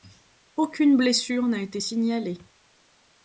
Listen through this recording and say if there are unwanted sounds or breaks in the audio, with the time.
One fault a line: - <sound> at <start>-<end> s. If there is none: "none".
none